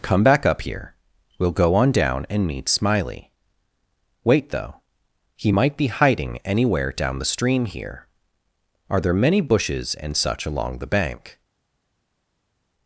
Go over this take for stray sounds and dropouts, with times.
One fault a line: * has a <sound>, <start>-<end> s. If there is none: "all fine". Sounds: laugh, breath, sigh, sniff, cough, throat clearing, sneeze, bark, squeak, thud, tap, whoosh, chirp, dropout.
all fine